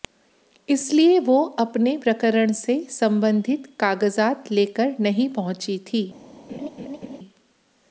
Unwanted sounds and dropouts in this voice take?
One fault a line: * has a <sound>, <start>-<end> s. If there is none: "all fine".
* has a laugh, 6.5-7.2 s